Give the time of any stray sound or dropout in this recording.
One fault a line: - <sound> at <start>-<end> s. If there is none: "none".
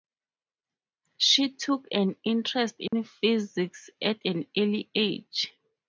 - dropout at 2.9-2.9 s